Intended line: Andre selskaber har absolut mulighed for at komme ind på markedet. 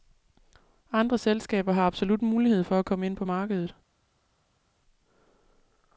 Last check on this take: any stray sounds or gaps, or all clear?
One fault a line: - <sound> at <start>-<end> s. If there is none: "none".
none